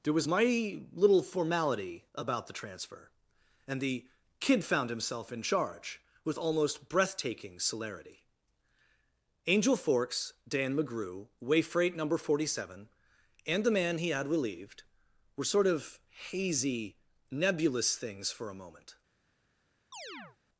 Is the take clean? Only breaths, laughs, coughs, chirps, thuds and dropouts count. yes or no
no